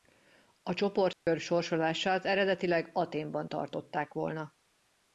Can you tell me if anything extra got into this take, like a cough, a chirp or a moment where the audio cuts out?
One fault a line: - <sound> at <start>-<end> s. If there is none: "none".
- dropout at 1.1-1.3 s